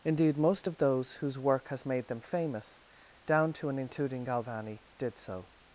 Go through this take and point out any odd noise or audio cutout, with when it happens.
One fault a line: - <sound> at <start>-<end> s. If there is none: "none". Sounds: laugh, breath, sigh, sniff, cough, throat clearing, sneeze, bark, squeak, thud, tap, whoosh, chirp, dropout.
none